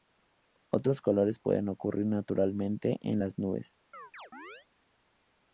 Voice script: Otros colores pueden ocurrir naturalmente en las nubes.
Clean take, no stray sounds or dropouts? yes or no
no